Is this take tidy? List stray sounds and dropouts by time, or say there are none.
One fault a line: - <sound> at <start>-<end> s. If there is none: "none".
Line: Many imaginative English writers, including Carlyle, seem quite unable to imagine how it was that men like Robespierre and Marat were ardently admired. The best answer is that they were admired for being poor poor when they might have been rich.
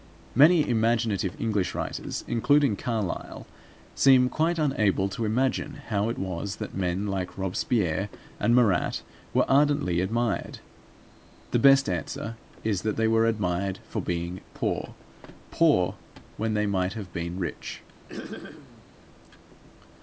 - throat clearing at 18.1-18.9 s